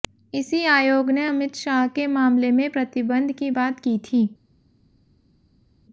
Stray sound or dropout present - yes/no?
no